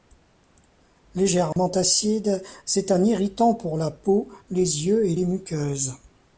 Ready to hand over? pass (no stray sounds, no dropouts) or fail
fail